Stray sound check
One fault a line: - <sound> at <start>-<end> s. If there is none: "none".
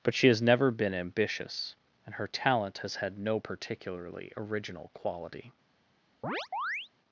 - chirp at 6.2-6.9 s